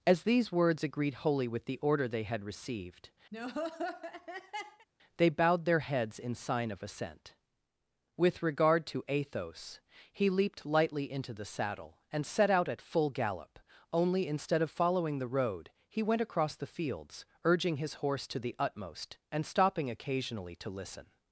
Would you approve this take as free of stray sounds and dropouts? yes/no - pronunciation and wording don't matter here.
no